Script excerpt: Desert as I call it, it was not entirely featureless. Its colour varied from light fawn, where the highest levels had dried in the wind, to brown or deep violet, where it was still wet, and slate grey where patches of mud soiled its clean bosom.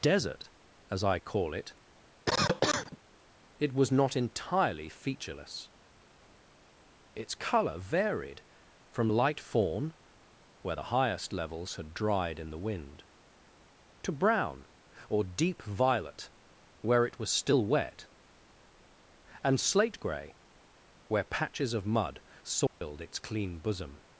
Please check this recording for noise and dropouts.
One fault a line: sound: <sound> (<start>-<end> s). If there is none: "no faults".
sound: cough (2.3-3.0 s)
sound: dropout (22.7-22.8 s)